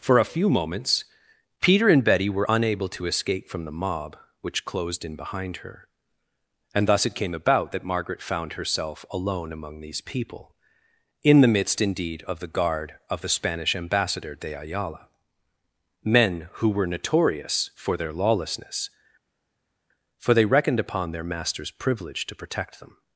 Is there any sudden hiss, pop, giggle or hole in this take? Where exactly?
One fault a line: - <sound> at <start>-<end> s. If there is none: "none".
none